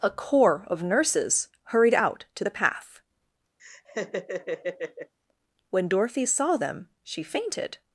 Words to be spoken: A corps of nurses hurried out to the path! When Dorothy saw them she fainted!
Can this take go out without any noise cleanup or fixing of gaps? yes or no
no